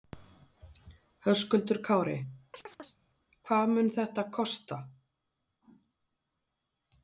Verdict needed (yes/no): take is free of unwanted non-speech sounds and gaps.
no